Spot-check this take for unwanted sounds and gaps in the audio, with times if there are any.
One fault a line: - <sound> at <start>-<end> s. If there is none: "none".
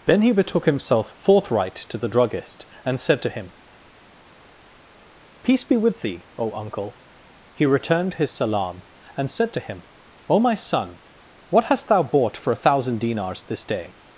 none